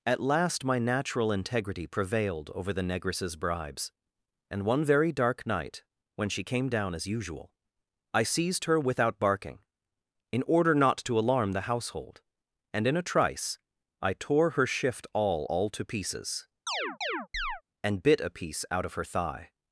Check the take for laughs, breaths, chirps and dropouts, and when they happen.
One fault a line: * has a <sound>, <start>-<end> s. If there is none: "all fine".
* has a chirp, 16.7-17.6 s